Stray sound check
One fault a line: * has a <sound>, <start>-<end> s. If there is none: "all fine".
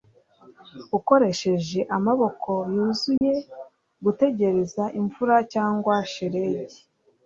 * has a dropout, 3.2-3.2 s